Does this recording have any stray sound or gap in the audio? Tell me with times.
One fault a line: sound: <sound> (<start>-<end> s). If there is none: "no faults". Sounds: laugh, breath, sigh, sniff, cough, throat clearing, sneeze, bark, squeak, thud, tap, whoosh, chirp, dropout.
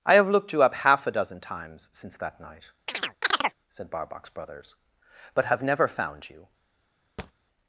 sound: chirp (2.9-3.6 s)
sound: thud (7.2-7.3 s)